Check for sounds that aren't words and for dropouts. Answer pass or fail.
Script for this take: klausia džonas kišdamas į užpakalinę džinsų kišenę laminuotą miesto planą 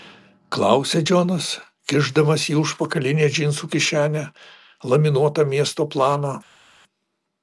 pass